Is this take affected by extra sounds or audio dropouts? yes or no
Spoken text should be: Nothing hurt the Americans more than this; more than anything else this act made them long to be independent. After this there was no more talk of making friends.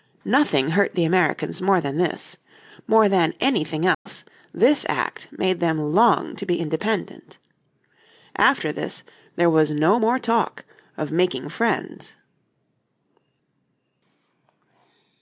yes